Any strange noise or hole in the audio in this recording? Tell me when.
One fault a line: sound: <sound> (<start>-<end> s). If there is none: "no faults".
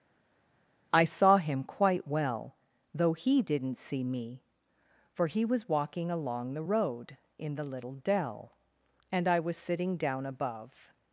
no faults